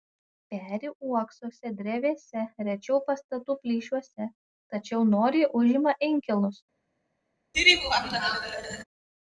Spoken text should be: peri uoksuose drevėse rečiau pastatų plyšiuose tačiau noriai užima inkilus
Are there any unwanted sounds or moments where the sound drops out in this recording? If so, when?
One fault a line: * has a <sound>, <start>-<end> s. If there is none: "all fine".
* has a laugh, 7.5-8.8 s